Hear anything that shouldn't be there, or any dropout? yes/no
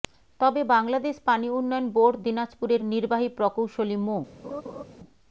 yes